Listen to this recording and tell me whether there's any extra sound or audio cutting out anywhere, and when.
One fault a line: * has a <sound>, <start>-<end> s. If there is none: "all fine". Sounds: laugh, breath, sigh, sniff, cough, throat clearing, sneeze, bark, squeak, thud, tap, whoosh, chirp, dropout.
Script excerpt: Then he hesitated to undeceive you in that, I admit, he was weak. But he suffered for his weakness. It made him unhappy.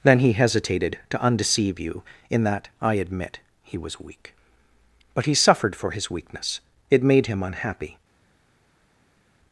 all fine